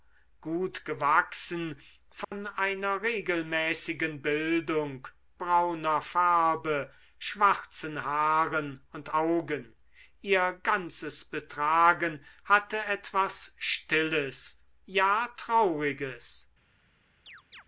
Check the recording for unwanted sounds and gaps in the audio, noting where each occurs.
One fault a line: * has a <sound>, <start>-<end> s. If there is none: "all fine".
* has a dropout, 2.2-2.3 s
* has a chirp, 17.3-17.6 s